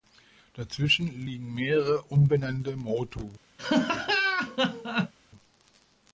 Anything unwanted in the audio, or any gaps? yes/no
yes